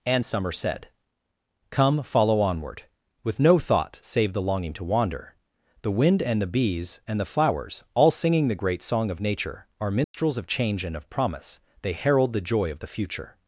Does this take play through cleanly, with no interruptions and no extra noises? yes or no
no